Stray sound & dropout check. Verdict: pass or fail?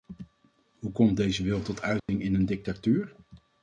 fail